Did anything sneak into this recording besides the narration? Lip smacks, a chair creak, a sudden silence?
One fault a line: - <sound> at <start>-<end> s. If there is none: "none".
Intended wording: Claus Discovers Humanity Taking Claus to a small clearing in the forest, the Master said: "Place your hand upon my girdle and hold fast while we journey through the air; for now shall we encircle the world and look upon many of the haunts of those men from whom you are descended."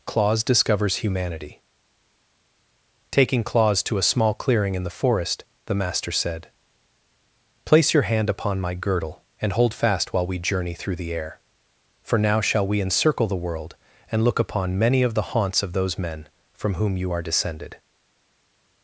none